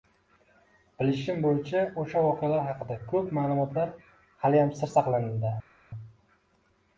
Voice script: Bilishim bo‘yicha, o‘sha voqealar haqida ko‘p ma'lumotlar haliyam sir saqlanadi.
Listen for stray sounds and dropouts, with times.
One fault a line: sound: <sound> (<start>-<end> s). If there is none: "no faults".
no faults